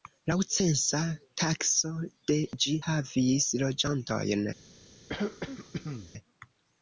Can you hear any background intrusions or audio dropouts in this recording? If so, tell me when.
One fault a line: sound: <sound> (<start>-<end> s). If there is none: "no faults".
sound: throat clearing (5.1-6.1 s)